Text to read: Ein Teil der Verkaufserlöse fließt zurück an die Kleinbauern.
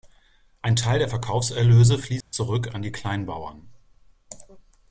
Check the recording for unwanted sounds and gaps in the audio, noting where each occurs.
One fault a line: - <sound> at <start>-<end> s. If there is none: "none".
- dropout at 2.2-2.3 s